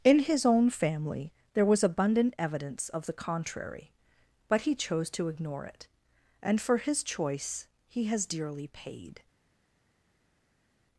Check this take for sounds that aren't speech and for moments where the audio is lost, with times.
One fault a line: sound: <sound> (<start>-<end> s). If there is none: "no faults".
no faults